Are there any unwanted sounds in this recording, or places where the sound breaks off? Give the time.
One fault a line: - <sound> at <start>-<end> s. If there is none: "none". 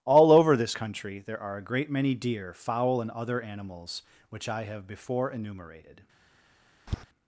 - tap at 6.9-7.0 s